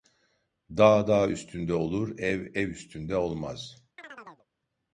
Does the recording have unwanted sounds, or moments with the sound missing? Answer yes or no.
yes